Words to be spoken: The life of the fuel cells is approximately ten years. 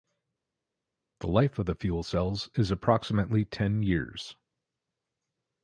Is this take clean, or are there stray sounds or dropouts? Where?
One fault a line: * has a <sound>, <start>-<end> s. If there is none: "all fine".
all fine